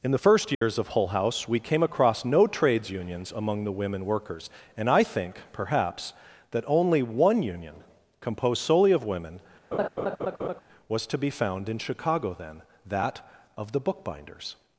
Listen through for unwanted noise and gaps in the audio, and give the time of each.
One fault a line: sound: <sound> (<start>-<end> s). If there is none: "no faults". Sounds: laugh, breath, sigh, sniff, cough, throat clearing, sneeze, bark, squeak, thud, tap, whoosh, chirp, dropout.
sound: dropout (0.5-0.6 s)
sound: laugh (9.7-10.6 s)